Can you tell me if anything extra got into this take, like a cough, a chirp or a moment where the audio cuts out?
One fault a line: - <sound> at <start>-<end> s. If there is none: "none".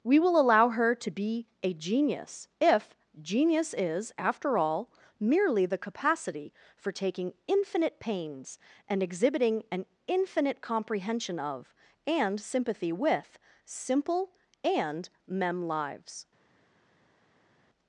none